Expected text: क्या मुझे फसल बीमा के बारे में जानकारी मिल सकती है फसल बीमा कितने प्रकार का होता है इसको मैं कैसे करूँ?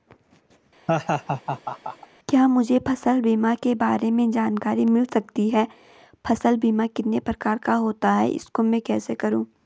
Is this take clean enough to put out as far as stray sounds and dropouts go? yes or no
no